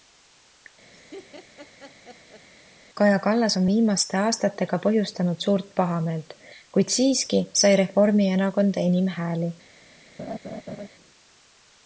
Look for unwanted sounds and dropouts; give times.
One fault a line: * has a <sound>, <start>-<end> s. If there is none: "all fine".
* has a laugh, 0.9-2.5 s
* has a laugh, 10.2-10.9 s